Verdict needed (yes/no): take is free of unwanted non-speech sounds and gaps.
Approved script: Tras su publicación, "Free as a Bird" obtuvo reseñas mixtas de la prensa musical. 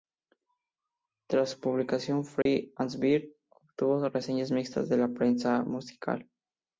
no